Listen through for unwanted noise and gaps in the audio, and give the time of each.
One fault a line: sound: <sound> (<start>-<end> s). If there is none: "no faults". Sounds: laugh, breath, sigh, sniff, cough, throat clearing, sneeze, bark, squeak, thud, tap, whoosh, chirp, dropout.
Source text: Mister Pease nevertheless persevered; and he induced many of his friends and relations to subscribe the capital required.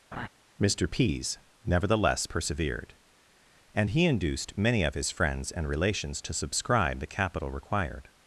sound: laugh (0.1-0.3 s)